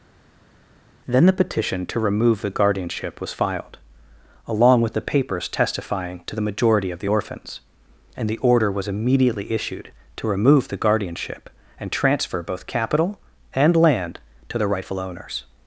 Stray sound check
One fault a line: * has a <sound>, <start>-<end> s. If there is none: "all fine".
all fine